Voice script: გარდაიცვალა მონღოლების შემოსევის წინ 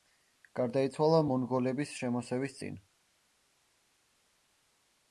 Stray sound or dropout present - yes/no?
no